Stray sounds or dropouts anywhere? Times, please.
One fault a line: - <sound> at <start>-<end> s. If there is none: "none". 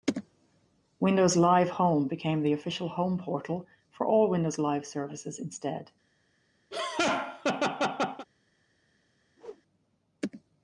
- laugh at 6.7-8.3 s
- whoosh at 9.4-9.6 s